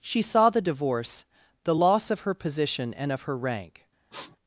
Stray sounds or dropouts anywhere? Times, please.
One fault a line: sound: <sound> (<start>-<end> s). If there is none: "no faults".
sound: sniff (4.1-4.4 s)